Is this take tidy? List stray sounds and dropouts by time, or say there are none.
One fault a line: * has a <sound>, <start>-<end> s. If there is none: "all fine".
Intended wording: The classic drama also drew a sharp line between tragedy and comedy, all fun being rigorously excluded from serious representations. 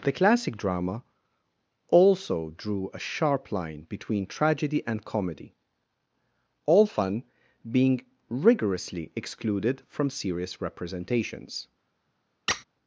* has a squeak, 12.5-12.6 s